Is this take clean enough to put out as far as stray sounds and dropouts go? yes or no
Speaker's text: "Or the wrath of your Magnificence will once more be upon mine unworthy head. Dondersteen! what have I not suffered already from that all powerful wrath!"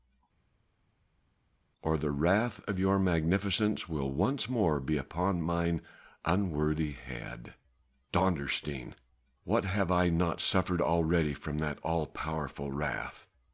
yes